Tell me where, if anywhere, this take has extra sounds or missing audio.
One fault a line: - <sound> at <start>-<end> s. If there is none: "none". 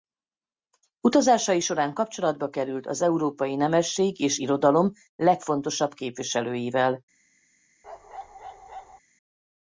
- bark at 7.8-9.0 s